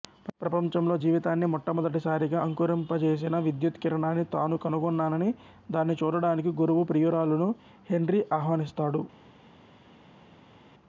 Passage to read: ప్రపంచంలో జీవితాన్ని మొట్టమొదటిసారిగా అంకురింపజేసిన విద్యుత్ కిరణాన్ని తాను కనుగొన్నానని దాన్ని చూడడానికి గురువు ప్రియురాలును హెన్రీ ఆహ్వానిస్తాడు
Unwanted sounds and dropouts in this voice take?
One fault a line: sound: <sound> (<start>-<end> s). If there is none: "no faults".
no faults